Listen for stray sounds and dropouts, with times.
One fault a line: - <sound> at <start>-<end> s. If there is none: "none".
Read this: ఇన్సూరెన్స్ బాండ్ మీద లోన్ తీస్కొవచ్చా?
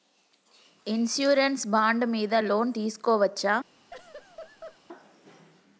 - laugh at 3.9-4.8 s